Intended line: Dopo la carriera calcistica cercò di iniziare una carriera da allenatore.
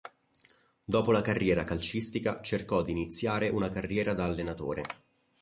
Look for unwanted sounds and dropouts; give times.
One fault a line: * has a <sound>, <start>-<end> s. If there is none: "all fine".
all fine